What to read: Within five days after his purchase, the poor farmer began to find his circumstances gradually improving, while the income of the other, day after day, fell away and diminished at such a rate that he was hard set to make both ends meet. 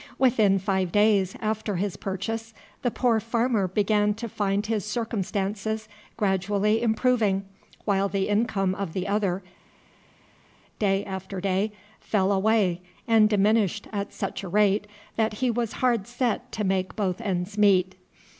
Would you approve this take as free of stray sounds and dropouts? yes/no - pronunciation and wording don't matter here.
yes